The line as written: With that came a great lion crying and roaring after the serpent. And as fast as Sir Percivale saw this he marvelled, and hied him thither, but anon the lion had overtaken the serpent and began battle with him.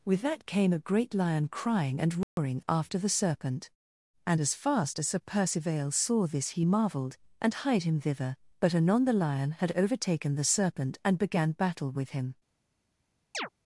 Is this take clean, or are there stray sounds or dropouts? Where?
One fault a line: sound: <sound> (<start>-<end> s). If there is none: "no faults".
sound: dropout (2.2-2.4 s)
sound: chirp (13.3-13.5 s)